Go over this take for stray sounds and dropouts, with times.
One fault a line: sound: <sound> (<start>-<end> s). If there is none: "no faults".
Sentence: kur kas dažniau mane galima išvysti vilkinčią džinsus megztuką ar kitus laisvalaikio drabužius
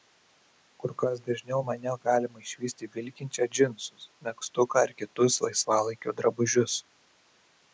no faults